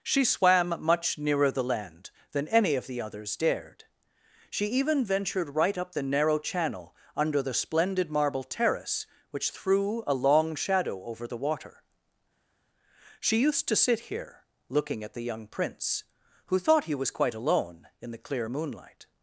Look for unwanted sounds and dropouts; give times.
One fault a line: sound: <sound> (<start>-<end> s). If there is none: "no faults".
no faults